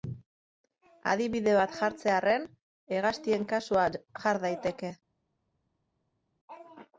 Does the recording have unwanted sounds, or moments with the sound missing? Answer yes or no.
no